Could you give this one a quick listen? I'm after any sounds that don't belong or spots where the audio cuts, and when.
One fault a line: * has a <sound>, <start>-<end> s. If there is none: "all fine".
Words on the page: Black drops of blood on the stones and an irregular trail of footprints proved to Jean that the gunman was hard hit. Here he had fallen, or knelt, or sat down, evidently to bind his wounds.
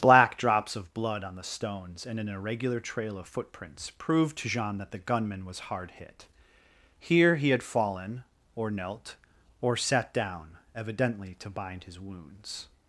all fine